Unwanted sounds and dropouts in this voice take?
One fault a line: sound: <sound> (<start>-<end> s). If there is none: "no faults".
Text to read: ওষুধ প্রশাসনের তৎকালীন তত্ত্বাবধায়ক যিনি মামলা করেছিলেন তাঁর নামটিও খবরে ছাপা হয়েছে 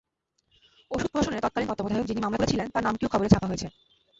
no faults